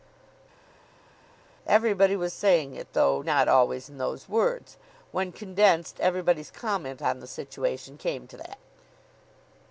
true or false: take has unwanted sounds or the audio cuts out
false